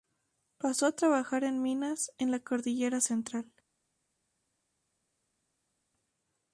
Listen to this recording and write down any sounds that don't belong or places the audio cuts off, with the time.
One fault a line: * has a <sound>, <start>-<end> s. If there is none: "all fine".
all fine